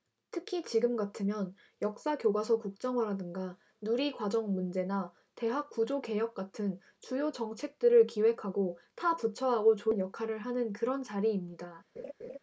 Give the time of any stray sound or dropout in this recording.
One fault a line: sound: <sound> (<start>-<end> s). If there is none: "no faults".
sound: laugh (12.0-12.4 s)